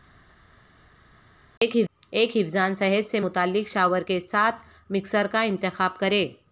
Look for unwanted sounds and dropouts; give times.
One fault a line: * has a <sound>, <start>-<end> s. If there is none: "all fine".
all fine